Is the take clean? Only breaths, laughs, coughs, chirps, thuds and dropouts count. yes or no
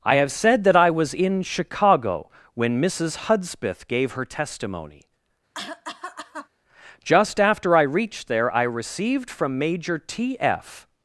no